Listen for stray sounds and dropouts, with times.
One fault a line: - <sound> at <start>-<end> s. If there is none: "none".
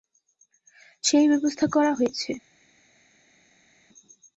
none